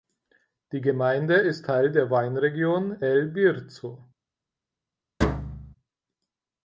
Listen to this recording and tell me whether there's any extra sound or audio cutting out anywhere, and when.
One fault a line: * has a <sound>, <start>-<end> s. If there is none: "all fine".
* has a thud, 5.2-5.8 s